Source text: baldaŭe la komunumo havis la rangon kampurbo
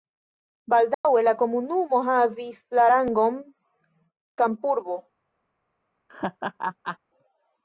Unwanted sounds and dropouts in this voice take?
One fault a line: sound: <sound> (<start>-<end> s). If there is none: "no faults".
sound: dropout (0.9-1.0 s)
sound: laugh (6.1-7.0 s)